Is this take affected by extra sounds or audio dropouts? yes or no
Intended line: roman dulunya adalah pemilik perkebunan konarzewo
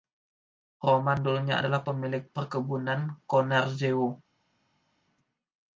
no